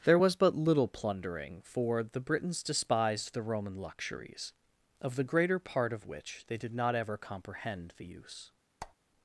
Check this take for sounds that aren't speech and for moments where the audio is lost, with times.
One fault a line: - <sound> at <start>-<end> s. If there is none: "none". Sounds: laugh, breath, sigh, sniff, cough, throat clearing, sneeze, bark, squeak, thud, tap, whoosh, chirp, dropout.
- squeak at 8.8-8.9 s